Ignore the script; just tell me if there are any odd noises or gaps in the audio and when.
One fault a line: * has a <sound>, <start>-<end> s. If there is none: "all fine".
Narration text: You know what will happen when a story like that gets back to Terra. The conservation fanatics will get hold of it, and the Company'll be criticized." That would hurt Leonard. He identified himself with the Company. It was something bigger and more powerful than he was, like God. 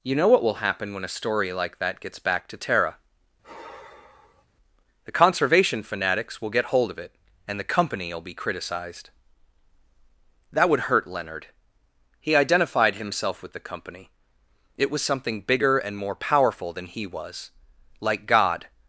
* has a sigh, 3.4-4.5 s